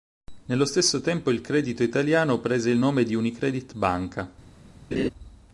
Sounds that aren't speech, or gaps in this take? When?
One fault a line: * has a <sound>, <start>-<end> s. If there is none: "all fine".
* has a laugh, 4.9-5.1 s